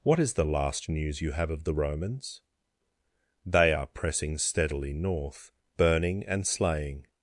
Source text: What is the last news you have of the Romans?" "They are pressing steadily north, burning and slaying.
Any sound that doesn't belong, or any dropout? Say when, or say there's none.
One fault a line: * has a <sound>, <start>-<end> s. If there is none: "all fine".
all fine